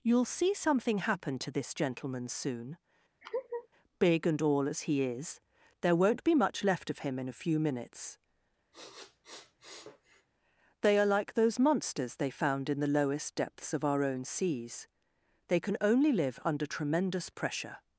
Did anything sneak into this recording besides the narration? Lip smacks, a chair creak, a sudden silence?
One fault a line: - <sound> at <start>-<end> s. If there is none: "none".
- laugh at 3.2-3.7 s
- sniff at 8.7-10.3 s